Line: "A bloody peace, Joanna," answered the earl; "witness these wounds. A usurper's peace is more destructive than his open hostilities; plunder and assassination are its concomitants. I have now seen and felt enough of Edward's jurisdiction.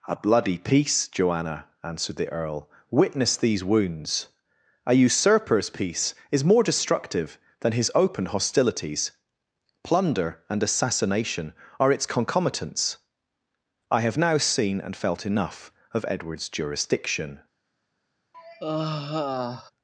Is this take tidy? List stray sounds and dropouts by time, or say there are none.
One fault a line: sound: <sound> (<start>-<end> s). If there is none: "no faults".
sound: sigh (18.3-19.7 s)